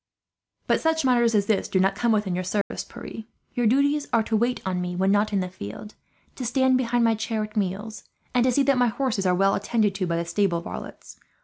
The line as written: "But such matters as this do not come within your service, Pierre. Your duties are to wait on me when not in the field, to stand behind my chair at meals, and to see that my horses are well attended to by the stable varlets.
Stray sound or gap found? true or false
true